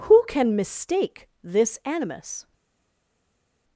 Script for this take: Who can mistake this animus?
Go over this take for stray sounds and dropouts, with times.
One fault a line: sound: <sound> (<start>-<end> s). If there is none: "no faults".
no faults